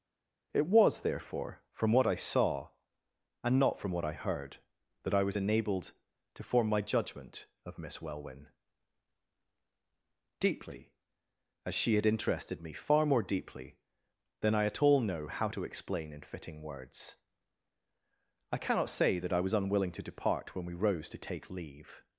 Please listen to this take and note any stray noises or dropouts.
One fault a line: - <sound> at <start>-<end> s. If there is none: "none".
none